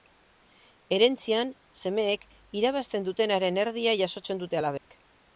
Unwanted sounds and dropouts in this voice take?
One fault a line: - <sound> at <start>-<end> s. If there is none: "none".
- dropout at 4.8-4.9 s